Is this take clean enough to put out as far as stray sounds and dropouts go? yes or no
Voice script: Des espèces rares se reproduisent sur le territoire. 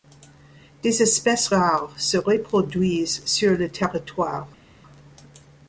yes